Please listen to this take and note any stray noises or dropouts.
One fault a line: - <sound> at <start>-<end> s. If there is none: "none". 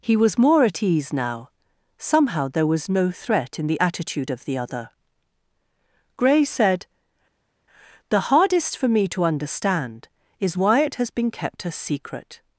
none